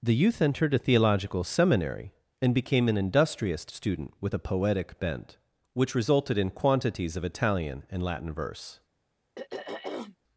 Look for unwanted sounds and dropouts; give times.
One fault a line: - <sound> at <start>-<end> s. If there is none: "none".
- throat clearing at 9.4-10.2 s